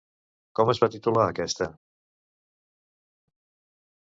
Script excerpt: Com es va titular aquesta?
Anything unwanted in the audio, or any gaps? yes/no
no